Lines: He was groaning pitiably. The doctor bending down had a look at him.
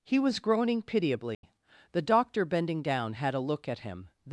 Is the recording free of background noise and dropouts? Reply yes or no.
no